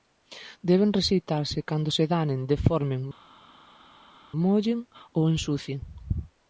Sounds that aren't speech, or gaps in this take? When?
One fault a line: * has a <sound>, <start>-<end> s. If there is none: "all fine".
all fine